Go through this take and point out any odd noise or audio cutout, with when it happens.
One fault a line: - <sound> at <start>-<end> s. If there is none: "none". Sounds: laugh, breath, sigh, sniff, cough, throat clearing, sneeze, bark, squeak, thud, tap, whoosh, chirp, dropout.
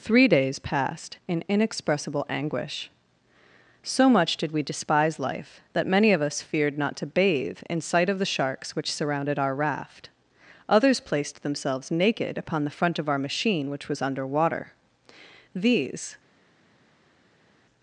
none